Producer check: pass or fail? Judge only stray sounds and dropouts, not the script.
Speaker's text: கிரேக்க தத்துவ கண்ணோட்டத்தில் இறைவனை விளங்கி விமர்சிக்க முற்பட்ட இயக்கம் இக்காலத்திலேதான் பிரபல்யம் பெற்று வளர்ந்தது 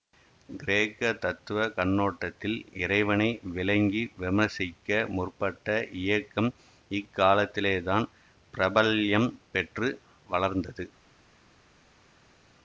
pass